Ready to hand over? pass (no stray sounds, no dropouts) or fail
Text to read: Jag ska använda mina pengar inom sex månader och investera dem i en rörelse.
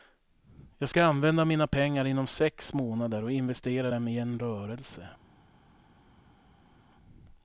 pass